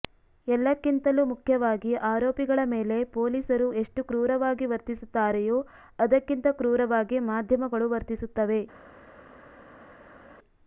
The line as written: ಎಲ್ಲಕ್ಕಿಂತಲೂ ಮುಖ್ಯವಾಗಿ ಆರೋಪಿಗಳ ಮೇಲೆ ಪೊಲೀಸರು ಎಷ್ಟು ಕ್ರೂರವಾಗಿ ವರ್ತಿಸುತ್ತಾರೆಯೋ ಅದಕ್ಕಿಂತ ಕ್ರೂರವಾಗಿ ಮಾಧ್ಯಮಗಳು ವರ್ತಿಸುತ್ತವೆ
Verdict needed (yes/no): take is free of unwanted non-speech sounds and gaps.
yes